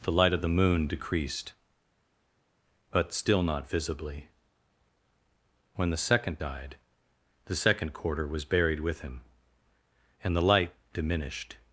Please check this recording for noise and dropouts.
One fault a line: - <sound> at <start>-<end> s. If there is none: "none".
none